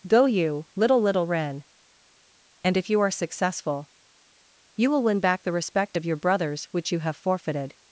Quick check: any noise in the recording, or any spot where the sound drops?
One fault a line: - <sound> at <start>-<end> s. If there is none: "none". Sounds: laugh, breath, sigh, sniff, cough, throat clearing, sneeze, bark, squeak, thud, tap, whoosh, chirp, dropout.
none